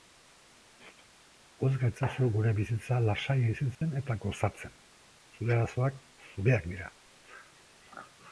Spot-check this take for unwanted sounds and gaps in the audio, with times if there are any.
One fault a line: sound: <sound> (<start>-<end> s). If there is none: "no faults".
sound: dropout (3.7-3.8 s)